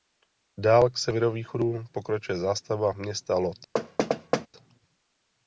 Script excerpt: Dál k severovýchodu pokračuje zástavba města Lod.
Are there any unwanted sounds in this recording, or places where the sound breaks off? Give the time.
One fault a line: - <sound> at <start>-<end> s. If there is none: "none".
- thud at 3.7-4.5 s